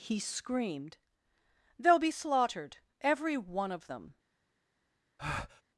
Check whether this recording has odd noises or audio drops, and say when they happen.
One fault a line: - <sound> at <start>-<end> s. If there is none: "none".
- breath at 5.2-5.6 s